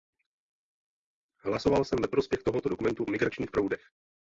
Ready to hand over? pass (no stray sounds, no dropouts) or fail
pass